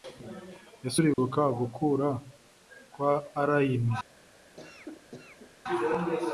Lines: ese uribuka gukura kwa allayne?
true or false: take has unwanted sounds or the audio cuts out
true